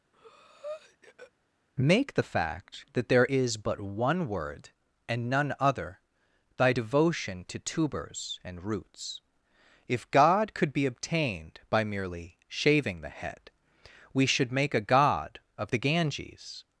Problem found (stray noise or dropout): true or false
true